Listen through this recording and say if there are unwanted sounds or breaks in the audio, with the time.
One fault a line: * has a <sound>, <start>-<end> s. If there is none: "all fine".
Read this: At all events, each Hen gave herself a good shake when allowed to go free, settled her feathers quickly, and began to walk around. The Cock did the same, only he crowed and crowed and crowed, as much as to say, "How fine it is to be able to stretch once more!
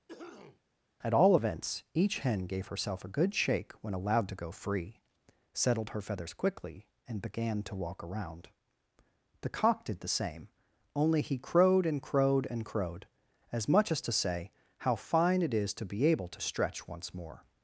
* has a cough, 0.1-0.6 s